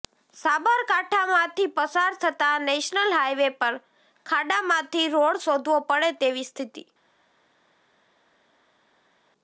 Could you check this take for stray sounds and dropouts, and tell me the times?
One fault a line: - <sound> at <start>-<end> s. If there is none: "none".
none